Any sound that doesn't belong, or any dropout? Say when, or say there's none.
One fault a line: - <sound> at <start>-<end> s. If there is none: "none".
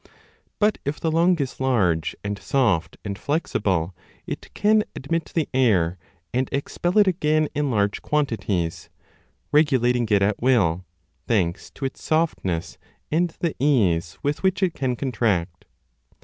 none